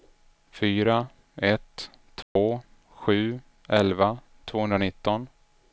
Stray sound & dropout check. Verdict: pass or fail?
fail